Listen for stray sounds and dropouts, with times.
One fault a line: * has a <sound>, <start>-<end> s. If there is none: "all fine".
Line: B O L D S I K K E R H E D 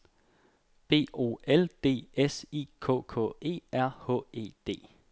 all fine